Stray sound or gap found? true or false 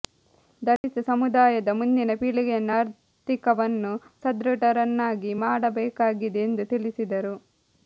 true